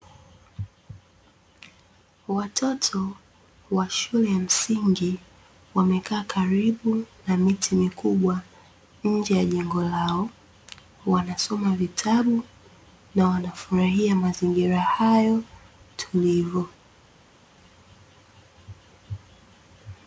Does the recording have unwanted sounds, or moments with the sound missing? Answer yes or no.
no